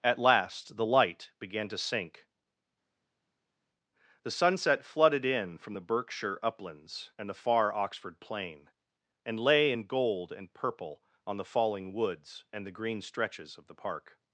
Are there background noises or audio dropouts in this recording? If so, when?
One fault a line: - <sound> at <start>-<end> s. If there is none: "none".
none